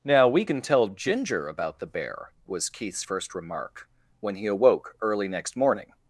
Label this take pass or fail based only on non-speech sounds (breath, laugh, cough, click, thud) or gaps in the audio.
pass